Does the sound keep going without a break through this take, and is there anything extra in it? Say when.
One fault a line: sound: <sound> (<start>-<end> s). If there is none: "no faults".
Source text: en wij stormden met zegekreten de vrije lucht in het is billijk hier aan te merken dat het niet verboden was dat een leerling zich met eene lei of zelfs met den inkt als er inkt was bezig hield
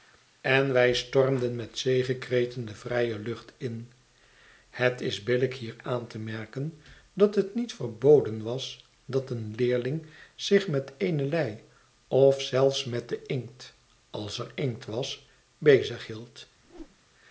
sound: whoosh (16.6-17.0 s)